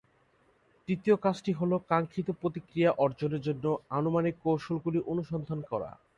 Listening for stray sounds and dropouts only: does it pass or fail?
pass